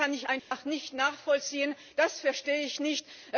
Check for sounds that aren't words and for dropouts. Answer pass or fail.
fail